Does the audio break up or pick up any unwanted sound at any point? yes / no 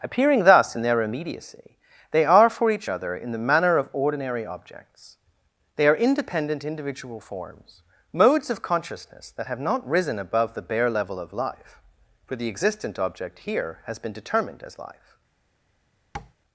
yes